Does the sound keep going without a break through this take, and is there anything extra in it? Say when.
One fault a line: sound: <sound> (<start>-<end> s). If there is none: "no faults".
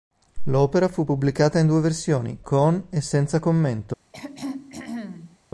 sound: throat clearing (4.1-5.4 s)